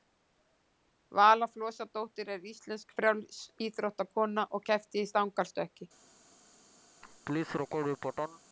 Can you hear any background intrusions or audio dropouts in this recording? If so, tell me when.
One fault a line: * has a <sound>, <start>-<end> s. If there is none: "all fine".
* has a laugh, 7.0-8.4 s